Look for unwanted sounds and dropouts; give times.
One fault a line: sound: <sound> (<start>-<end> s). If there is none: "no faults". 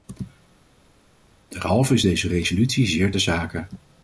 no faults